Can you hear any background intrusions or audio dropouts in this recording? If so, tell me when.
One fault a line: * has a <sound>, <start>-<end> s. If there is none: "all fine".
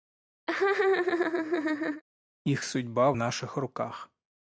* has a laugh, 0.5-2.0 s